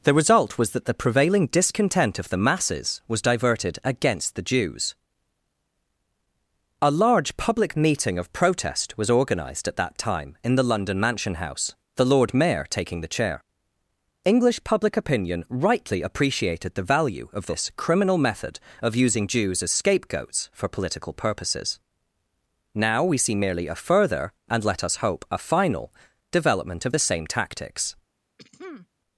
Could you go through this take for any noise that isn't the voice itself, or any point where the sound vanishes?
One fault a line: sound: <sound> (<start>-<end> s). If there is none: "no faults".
sound: throat clearing (28.4-28.9 s)